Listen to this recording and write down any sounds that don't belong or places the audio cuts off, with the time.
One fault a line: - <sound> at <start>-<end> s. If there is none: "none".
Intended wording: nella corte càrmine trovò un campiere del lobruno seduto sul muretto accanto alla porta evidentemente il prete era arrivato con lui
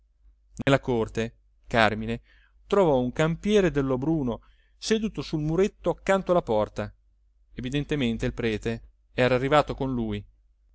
- dropout at 0.6-0.7 s